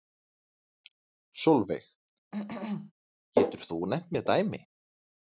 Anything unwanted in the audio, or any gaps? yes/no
yes